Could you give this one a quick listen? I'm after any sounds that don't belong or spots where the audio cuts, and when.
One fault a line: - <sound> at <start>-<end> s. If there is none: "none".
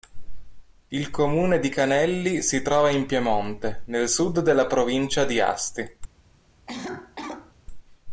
- cough at 6.7-7.5 s